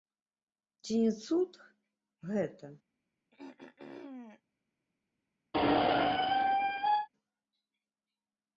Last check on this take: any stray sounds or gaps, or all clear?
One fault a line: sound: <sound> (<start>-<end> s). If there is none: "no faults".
sound: throat clearing (3.3-4.4 s)
sound: squeak (5.5-7.1 s)